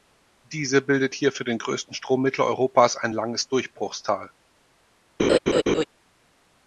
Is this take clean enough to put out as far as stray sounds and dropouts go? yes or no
no